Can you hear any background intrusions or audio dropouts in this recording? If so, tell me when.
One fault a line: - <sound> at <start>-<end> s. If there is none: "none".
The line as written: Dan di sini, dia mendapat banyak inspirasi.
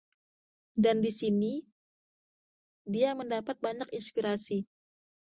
none